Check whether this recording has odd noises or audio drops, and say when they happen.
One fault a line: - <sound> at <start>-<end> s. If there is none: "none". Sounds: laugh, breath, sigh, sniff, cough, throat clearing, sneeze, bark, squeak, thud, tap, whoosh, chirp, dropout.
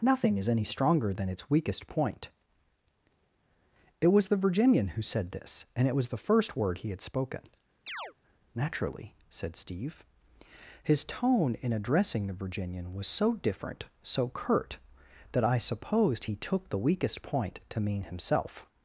- chirp at 7.9-8.1 s